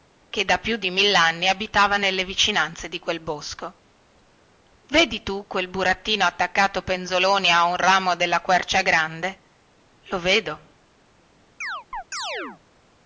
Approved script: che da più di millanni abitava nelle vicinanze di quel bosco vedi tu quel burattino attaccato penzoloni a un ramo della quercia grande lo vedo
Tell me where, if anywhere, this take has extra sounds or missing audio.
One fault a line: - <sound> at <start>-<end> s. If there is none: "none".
- chirp at 11.6-12.6 s